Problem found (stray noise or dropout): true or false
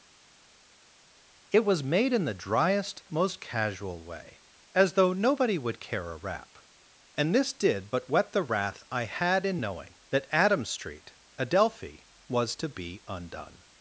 false